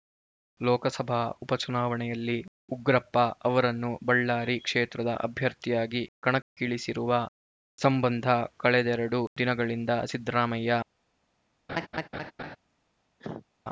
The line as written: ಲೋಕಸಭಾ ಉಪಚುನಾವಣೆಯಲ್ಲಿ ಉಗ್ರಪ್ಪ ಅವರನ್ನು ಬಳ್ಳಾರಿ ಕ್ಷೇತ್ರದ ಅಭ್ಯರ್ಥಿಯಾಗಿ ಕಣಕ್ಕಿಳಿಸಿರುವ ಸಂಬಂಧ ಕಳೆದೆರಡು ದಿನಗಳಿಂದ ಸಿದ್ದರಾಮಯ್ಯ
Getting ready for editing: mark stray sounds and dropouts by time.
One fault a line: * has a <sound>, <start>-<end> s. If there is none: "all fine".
* has a laugh, 11.7-12.6 s
* has a cough, 13.2-13.5 s